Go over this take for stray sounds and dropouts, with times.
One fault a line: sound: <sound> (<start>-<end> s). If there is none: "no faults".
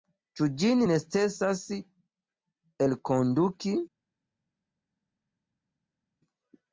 no faults